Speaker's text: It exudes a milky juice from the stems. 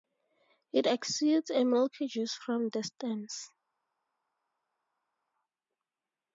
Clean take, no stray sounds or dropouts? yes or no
yes